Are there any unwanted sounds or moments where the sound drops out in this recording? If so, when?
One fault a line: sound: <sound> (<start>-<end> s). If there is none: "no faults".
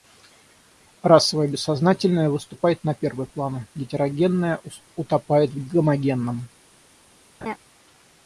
sound: laugh (7.4-7.6 s)